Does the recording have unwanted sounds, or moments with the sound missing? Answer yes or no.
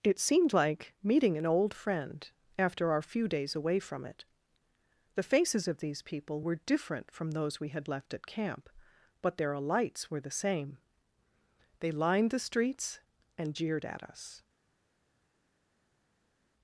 no